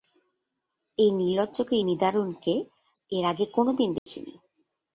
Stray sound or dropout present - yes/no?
yes